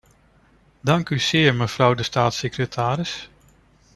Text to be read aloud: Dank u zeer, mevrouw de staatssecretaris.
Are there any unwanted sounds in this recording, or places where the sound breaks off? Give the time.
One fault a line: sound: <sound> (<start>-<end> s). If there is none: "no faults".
no faults